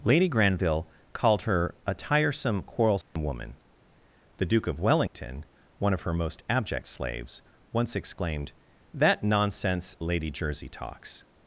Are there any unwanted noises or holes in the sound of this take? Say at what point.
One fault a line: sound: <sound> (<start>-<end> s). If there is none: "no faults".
sound: dropout (3.0-3.2 s)
sound: dropout (5.1-5.2 s)